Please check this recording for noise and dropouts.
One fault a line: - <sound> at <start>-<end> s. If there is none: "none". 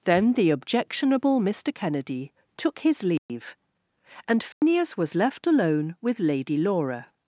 - dropout at 3.2-3.3 s
- dropout at 4.5-4.6 s